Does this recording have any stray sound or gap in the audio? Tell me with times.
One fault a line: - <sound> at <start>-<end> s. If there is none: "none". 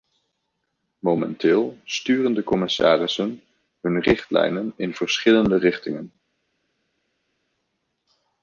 none